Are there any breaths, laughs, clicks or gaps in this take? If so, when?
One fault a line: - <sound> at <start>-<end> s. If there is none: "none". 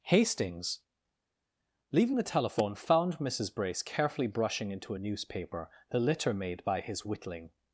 none